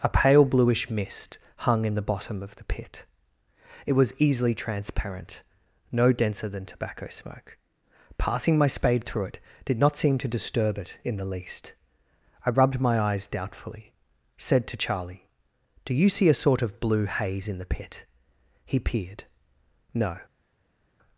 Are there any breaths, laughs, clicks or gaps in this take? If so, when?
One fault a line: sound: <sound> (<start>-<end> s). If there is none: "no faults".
no faults